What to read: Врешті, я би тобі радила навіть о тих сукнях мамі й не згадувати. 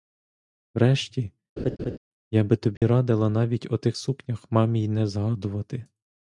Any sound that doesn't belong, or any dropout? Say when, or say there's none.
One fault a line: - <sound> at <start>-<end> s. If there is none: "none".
- laugh at 1.6-2.0 s
- dropout at 2.8-2.8 s